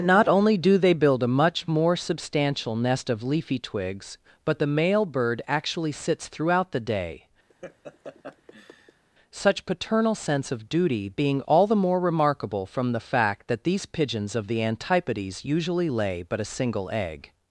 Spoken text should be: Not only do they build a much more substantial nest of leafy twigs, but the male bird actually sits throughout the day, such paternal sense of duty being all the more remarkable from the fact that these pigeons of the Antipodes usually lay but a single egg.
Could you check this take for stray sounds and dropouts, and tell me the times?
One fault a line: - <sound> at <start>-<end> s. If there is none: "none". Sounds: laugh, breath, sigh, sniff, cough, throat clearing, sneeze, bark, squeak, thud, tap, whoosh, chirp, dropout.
- laugh at 7.5-9.0 s